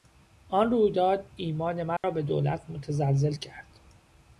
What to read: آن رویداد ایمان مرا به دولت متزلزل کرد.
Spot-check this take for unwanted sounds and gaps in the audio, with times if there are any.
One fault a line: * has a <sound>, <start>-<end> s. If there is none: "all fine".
* has a dropout, 2.0-2.0 s